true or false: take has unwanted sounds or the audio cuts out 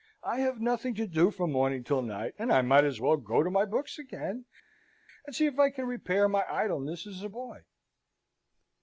false